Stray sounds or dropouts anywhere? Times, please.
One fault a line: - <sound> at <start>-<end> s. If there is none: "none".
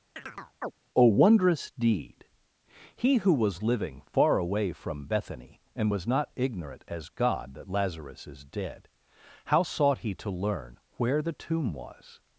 - chirp at 0.2-0.7 s